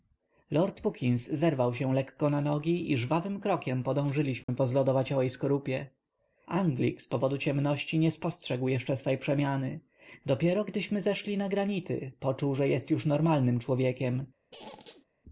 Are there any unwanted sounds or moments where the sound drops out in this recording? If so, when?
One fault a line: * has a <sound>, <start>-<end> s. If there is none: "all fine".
* has a dropout, 4.4-4.5 s
* has a squeak, 14.5-15.1 s